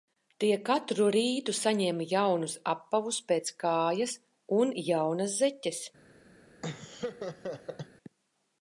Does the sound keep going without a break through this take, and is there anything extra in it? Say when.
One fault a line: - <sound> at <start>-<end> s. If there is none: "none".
- laugh at 6.6-7.9 s